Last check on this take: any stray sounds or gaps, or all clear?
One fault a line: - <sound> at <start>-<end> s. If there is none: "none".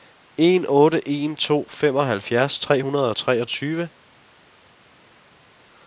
none